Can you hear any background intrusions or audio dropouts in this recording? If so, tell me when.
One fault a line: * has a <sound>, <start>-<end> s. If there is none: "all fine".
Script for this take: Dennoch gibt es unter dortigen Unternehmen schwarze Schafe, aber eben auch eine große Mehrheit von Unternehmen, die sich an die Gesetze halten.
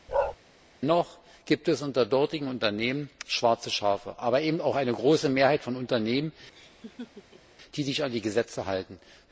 * has a bark, 0.1-0.4 s
* has a laugh, 6.5-7.6 s